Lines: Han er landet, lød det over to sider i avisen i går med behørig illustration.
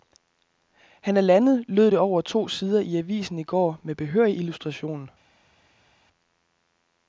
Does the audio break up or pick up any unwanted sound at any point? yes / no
no